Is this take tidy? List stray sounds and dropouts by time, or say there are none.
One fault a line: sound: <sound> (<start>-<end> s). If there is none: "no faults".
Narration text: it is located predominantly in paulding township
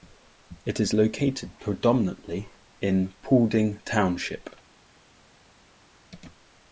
no faults